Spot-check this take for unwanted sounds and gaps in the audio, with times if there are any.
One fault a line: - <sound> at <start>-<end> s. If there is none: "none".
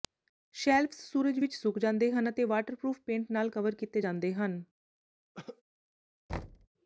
- cough at 5.3-5.6 s
- thud at 6.3-6.7 s